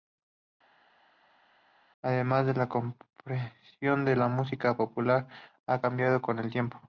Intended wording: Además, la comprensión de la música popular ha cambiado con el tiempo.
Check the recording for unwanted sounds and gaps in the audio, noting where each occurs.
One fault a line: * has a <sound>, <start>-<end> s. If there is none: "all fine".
all fine